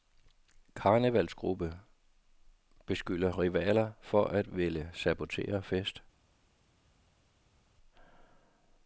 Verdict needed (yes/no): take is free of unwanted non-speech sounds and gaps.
yes